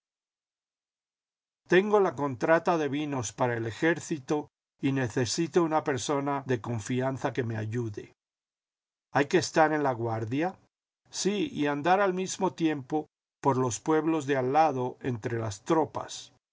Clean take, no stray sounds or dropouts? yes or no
yes